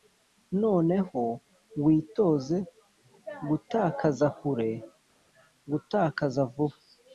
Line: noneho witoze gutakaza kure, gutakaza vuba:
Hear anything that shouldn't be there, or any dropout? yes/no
no